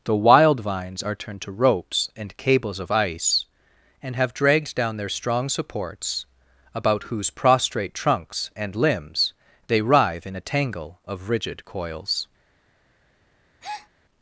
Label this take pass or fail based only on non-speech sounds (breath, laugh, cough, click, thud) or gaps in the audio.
fail